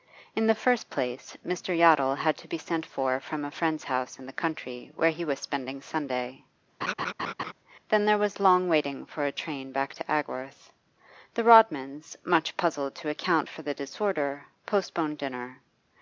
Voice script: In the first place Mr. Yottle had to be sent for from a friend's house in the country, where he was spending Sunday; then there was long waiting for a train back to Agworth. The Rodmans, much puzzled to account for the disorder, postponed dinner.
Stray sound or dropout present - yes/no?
yes